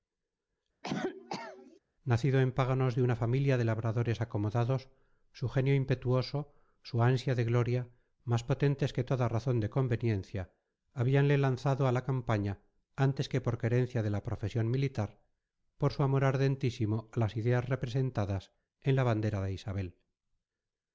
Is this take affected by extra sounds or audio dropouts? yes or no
yes